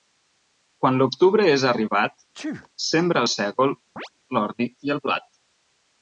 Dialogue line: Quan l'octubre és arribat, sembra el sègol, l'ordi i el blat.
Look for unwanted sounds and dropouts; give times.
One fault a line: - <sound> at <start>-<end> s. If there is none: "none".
- sneeze at 2.3-2.7 s
- chirp at 4.0-4.1 s